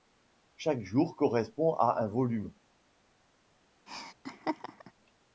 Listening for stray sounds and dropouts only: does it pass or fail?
fail